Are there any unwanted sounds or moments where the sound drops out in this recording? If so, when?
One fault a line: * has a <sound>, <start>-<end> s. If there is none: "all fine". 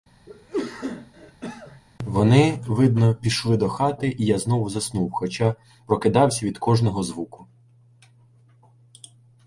* has a cough, 0.3-1.8 s